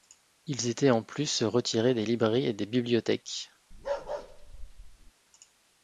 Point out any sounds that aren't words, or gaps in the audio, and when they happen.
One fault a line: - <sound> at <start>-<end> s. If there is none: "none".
- bark at 3.7-5.1 s